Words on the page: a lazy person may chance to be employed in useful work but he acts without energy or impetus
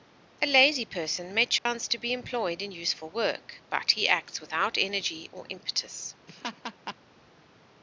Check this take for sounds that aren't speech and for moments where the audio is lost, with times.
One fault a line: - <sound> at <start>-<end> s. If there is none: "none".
- dropout at 1.6-1.7 s
- laugh at 6.3-7.0 s